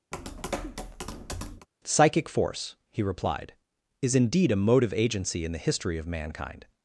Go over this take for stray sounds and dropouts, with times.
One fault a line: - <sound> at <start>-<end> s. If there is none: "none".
- tap at 0.1-1.7 s